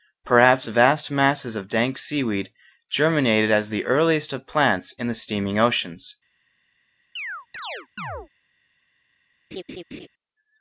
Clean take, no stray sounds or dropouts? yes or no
no